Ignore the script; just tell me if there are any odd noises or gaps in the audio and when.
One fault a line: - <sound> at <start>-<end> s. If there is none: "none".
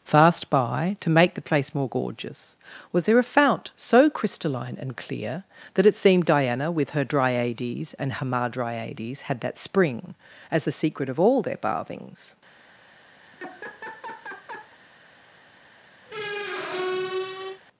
- laugh at 13.2-14.8 s
- squeak at 16.1-17.6 s